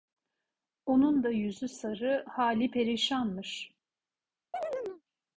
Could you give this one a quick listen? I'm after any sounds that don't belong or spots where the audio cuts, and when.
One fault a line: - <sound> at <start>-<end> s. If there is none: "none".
- chirp at 4.5-5.0 s